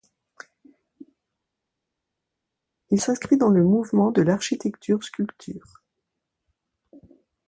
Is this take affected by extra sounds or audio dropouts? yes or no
no